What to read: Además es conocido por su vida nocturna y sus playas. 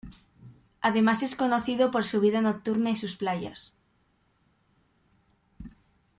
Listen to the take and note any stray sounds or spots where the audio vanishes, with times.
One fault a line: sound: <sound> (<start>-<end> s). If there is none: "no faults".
no faults